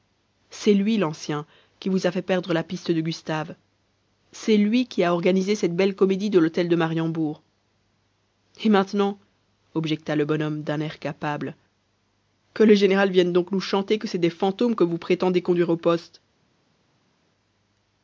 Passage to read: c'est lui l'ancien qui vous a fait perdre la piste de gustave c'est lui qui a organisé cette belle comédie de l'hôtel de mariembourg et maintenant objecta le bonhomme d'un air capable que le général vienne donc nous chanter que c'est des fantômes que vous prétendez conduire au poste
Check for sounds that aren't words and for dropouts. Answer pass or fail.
pass